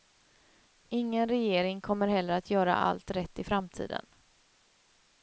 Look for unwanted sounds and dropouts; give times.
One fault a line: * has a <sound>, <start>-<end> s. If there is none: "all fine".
all fine